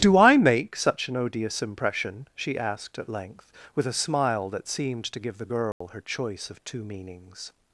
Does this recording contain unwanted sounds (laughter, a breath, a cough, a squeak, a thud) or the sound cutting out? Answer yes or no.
yes